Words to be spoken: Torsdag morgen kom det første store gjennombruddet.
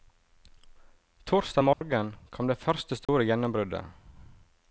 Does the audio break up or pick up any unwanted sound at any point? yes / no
yes